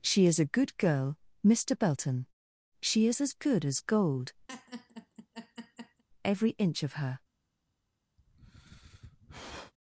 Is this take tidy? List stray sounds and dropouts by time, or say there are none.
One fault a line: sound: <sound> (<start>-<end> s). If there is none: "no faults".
sound: laugh (4.5-6.0 s)
sound: sigh (8.2-9.7 s)